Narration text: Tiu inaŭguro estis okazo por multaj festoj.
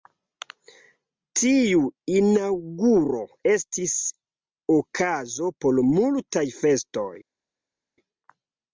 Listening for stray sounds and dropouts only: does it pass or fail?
pass